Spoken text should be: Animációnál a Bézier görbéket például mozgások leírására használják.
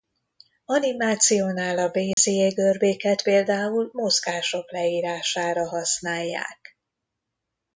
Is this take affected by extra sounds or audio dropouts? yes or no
yes